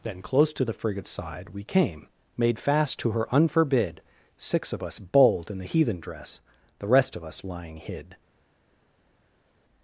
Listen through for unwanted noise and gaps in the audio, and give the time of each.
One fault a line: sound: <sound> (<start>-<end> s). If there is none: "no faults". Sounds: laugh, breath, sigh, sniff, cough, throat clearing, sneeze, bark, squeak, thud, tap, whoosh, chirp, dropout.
no faults